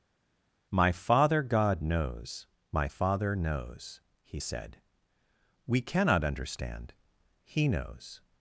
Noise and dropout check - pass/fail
pass